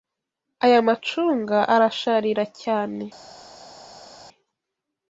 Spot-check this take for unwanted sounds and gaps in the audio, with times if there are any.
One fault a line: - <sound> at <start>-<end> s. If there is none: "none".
none